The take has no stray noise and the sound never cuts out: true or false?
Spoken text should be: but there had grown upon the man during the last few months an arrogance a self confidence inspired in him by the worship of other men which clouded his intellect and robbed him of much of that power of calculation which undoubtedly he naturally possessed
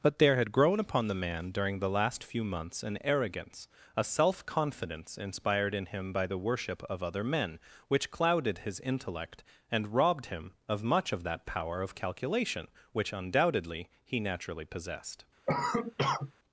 false